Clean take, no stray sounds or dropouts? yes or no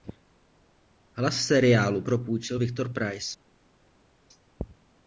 yes